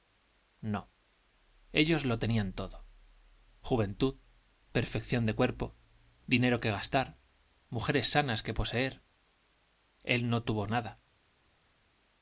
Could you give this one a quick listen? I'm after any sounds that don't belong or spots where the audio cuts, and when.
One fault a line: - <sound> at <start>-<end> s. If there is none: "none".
none